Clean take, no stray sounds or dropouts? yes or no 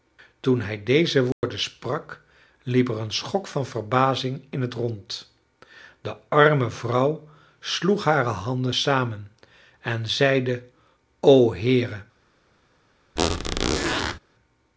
no